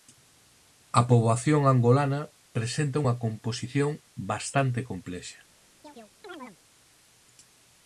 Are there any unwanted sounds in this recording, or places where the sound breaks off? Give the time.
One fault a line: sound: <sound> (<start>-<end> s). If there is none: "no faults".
sound: chirp (5.8-6.6 s)